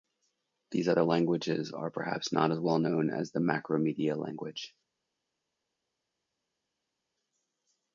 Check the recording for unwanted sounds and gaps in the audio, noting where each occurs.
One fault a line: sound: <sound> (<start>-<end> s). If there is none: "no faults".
no faults